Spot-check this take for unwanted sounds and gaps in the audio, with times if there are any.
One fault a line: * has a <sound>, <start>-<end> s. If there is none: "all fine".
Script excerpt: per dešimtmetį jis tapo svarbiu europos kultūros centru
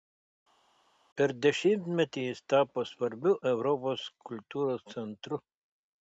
all fine